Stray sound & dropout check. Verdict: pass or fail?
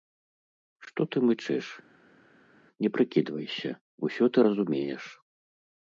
pass